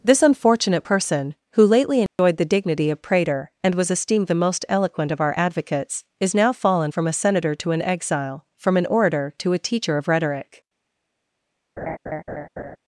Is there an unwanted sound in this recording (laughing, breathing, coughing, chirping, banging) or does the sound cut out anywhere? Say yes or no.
yes